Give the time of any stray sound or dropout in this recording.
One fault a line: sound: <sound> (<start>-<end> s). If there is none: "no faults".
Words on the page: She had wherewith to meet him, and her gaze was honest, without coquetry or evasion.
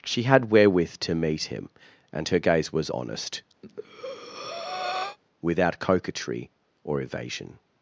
sound: breath (3.6-5.2 s)